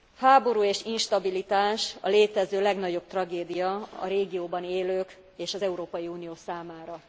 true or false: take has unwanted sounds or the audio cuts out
false